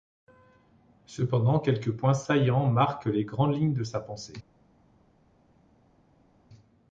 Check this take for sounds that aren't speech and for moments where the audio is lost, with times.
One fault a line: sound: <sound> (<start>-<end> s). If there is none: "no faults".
no faults